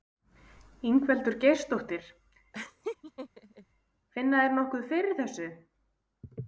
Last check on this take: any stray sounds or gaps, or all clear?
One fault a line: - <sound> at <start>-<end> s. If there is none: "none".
- laugh at 2.5-3.7 s